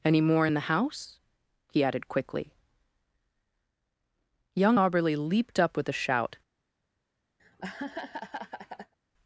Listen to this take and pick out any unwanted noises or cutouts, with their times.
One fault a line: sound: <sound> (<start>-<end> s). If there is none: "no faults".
sound: laugh (7.4-8.9 s)